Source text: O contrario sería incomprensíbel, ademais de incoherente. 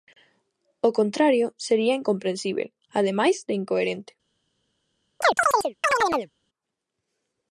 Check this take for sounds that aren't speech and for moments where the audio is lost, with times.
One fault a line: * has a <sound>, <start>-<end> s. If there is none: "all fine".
* has a chirp, 5.2-6.3 s